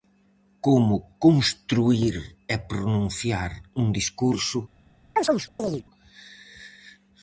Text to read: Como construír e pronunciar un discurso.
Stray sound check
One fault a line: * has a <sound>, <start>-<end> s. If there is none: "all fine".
* has a chirp, 5.2-5.8 s